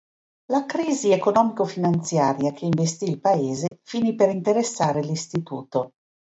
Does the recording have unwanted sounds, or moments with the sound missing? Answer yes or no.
yes